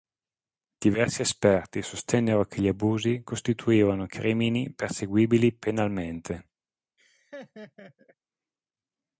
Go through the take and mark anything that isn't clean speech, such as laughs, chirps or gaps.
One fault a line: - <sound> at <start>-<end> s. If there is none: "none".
- laugh at 7.0-8.2 s